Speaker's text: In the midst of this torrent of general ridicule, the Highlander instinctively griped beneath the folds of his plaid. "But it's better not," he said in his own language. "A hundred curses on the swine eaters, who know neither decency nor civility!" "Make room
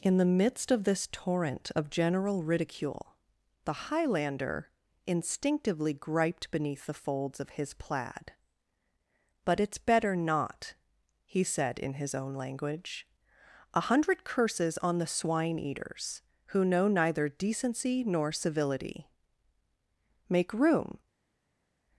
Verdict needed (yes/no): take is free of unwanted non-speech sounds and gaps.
yes